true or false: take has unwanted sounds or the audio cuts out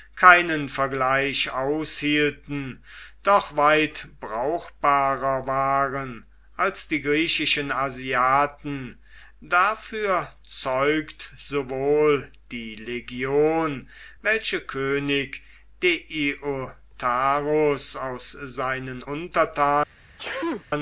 true